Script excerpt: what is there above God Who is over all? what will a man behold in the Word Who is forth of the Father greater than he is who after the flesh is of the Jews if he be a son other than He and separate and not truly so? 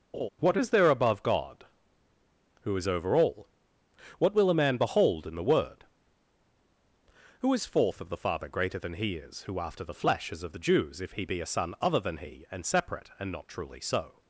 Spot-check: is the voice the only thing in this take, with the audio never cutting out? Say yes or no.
no